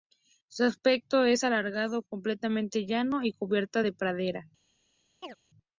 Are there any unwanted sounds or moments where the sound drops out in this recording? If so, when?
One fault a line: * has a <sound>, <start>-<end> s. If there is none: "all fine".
* has a chirp, 5.2-5.4 s